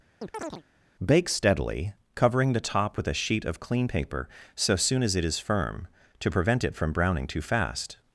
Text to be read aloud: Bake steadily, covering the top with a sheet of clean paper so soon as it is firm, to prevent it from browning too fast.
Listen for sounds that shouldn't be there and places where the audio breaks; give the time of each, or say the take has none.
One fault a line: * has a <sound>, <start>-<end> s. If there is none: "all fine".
* has a chirp, 0.2-0.6 s